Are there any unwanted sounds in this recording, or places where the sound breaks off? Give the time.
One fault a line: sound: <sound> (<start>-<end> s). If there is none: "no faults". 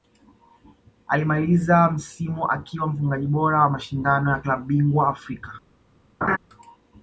sound: laugh (6.2-6.4 s)